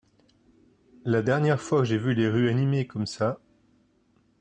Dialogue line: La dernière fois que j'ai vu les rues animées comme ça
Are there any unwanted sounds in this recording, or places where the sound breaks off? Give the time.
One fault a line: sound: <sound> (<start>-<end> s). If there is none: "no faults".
no faults